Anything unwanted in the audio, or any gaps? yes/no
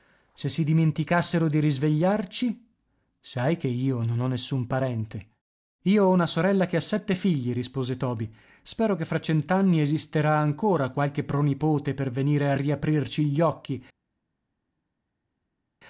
no